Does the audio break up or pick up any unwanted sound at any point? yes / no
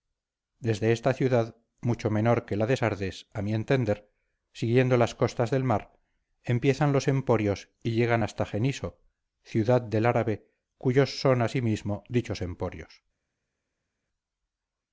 no